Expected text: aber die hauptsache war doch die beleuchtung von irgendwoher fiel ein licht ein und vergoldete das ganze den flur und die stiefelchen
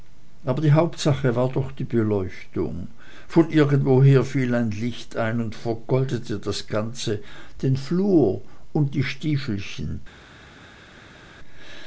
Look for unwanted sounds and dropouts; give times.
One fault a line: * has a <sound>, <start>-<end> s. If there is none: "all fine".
all fine